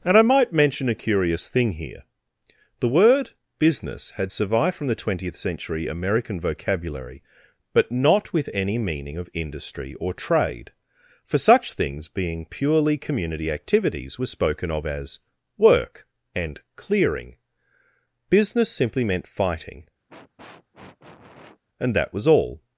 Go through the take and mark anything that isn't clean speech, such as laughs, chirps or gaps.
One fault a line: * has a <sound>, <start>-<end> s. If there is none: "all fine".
* has a sniff, 20.1-21.6 s